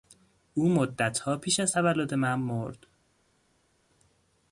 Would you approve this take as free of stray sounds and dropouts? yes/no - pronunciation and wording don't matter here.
yes